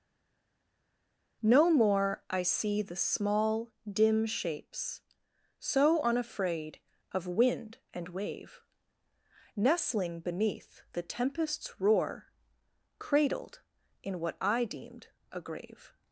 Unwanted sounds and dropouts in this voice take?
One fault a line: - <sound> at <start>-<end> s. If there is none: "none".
none